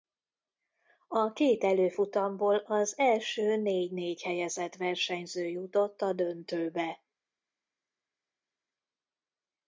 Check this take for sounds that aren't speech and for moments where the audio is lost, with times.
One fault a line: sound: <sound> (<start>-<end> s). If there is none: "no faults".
no faults